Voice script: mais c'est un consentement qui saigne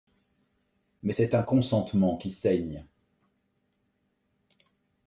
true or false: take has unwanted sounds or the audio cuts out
false